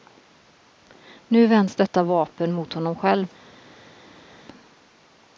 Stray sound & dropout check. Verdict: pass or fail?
pass